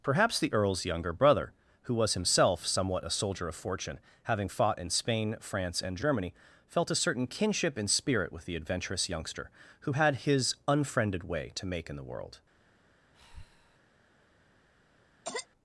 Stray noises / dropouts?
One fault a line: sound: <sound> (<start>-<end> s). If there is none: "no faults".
sound: breath (13.1-13.8 s)
sound: cough (15.2-15.5 s)